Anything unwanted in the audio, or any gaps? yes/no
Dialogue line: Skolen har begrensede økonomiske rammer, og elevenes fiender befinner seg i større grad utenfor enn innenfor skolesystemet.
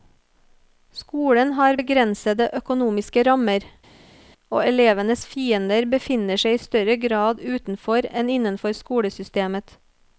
no